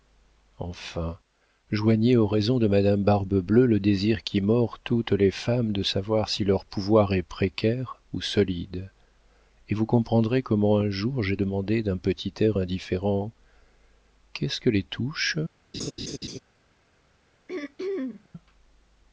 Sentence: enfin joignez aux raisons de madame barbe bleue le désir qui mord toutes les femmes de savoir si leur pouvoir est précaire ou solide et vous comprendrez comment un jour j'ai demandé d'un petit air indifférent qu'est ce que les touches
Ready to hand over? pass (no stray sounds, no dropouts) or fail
fail